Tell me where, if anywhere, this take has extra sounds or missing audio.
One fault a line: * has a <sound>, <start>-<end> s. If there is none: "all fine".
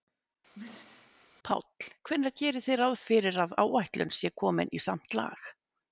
* has a throat clearing, 0.5-1.3 s